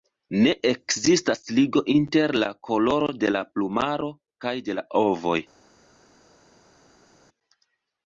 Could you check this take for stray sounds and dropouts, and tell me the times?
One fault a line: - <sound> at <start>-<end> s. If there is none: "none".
none